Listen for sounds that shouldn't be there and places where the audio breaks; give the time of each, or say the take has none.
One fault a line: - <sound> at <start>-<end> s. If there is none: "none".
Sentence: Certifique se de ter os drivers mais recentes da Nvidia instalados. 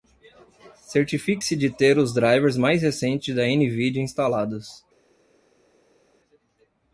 none